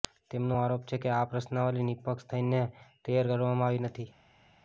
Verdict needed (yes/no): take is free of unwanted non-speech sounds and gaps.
yes